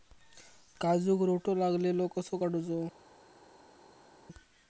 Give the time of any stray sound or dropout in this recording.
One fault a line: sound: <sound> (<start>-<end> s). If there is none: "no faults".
no faults